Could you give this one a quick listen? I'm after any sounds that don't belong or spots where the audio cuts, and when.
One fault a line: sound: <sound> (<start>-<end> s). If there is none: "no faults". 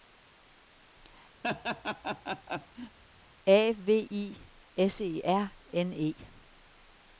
sound: laugh (1.4-3.0 s)